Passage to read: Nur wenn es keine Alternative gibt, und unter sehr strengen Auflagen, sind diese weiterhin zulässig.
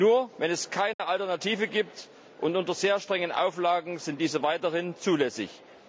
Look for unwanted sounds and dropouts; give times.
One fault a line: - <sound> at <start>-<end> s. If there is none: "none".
- dropout at 0.9-1.0 s